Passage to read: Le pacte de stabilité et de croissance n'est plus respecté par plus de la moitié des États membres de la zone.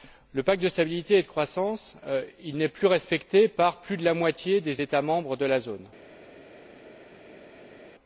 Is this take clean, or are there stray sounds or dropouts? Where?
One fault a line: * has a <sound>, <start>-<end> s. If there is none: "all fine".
all fine